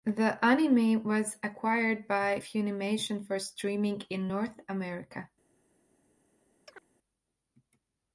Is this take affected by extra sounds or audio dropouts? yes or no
yes